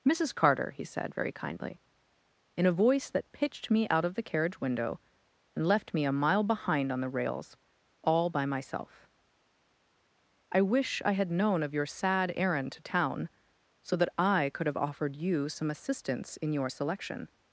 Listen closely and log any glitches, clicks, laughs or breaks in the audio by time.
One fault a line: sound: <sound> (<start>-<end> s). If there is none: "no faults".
no faults